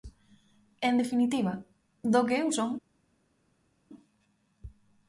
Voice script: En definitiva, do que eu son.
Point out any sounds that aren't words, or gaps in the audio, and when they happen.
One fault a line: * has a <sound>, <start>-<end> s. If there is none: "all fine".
all fine